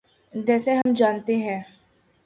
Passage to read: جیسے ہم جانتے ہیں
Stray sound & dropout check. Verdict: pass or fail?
fail